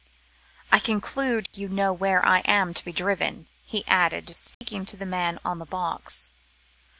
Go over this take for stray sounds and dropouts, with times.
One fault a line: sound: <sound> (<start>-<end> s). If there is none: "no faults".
sound: dropout (1.5-1.5 s)
sound: dropout (4.5-4.6 s)